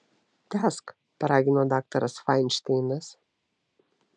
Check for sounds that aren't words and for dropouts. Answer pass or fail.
pass